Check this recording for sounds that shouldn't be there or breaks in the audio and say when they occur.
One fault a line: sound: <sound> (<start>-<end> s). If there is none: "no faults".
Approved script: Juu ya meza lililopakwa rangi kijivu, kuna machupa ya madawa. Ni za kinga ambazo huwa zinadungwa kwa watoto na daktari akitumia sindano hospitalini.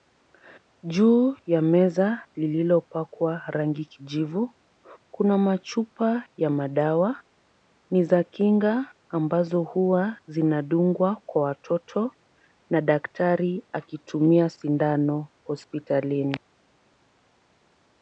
no faults